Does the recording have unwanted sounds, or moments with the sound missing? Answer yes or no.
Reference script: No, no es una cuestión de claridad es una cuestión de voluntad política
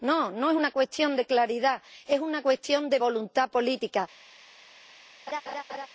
yes